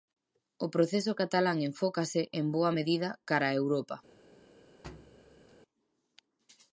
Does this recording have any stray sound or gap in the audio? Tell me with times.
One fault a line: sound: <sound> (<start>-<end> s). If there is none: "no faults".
sound: thud (4.8-5.6 s)